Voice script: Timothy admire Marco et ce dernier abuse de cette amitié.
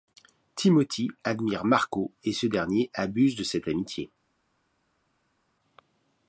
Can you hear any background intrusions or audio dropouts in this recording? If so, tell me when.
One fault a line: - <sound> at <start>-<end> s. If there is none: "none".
none